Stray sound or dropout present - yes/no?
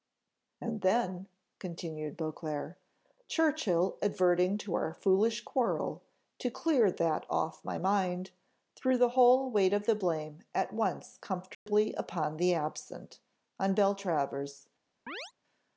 yes